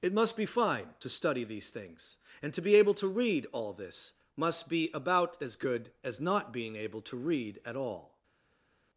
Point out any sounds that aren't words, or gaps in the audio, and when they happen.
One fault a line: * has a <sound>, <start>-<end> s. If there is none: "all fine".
all fine